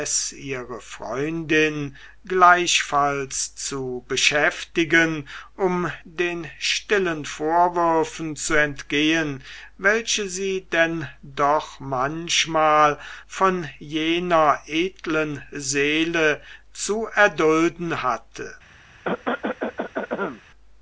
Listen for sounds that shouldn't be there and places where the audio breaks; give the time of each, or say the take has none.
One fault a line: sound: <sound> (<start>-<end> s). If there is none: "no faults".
sound: cough (19.0-20.4 s)